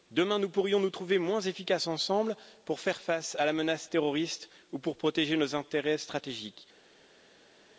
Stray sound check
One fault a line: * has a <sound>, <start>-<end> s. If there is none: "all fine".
all fine